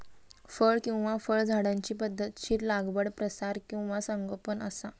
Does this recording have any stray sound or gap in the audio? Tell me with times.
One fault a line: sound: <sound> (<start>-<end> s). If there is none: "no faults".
no faults